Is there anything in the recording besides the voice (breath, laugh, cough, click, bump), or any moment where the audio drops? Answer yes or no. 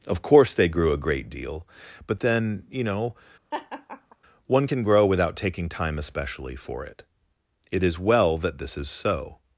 yes